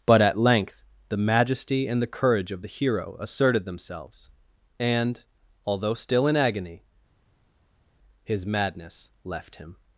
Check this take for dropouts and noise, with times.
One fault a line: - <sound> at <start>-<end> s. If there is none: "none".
none